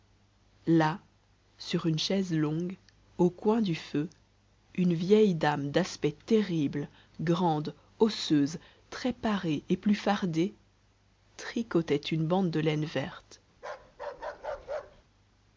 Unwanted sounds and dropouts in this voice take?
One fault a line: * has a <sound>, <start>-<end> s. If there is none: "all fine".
* has a bark, 13.5-15.0 s